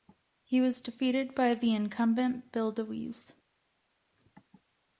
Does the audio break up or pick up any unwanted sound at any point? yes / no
no